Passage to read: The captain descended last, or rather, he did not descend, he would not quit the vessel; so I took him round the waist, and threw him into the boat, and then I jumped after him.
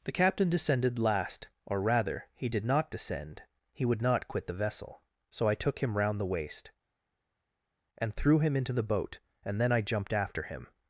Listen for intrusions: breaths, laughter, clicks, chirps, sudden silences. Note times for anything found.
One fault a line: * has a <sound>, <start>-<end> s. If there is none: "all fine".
all fine